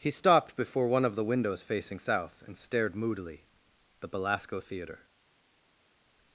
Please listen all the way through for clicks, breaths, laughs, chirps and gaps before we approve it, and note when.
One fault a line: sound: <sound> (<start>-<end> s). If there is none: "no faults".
no faults